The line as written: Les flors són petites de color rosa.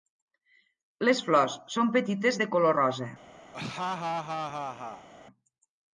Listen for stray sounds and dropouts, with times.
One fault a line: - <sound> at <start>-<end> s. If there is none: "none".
- laugh at 3.5-5.1 s